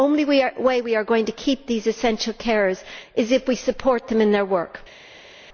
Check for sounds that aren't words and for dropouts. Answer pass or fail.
pass